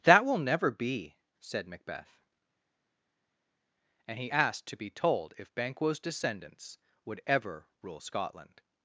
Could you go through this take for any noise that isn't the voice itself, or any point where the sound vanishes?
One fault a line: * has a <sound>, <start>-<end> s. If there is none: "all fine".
all fine